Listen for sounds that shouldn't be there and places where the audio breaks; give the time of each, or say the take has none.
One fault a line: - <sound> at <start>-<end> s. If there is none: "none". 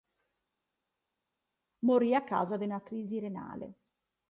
none